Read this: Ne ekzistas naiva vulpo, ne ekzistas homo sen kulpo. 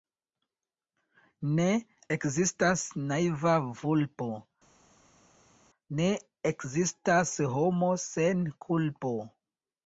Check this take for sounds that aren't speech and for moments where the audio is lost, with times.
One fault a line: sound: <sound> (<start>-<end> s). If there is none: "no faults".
no faults